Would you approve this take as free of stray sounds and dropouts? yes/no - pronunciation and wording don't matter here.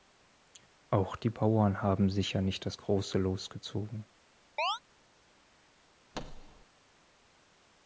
no